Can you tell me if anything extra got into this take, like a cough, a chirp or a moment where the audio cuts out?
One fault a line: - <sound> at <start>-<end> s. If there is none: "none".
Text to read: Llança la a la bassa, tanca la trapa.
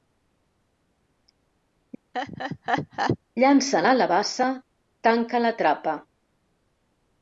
- laugh at 2.1-3.2 s